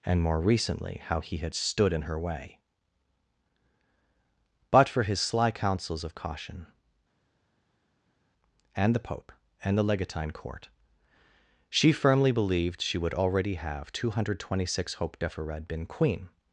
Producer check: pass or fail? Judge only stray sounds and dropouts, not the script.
pass